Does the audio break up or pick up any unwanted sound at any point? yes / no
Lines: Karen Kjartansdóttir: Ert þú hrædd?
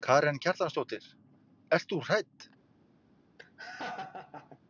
yes